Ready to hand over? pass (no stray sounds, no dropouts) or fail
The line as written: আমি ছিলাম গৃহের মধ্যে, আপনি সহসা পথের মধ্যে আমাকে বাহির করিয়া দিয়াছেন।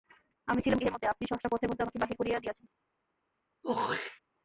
fail